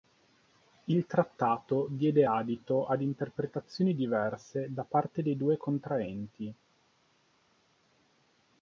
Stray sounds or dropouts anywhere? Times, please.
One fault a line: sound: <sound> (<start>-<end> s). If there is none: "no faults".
no faults